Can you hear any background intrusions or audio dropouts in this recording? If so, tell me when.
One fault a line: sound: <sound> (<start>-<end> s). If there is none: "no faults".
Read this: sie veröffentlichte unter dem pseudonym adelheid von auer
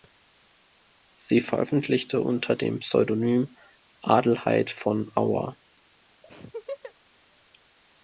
sound: laugh (6.2-6.9 s)